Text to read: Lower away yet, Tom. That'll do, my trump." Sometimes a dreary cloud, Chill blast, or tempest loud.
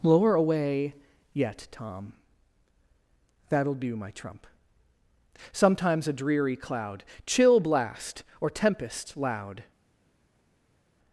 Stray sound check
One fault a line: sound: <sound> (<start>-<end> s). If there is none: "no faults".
no faults